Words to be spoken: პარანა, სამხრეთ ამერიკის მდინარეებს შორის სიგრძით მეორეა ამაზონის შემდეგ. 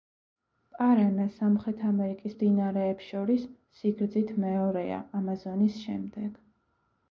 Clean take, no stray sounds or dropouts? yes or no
yes